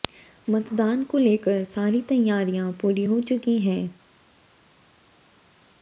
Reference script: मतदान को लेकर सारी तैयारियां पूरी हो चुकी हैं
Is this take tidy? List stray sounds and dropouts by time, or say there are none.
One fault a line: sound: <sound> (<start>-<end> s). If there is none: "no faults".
no faults